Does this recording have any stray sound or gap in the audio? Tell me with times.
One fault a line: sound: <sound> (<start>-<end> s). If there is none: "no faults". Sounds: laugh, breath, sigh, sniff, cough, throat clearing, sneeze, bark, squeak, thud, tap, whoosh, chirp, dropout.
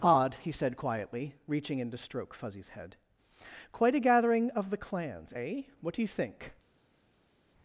no faults